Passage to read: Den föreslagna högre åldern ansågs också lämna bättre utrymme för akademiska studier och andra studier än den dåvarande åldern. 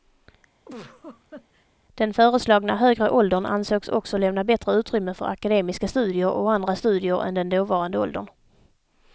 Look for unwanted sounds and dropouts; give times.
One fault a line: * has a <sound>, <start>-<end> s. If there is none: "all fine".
* has a laugh, 0.7-1.7 s